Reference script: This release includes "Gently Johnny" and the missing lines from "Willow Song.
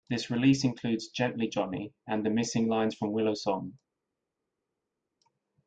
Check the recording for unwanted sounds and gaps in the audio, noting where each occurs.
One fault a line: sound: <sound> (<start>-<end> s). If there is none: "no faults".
no faults